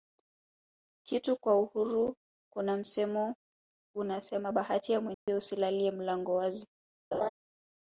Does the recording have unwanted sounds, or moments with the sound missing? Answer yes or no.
yes